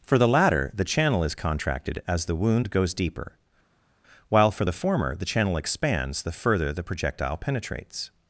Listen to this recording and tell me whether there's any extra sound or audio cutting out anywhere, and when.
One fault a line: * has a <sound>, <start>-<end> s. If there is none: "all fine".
all fine